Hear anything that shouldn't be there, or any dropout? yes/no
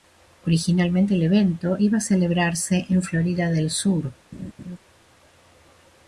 yes